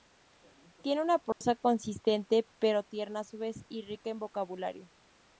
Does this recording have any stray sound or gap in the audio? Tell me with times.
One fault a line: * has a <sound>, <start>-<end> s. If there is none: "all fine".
* has a dropout, 1.3-1.4 s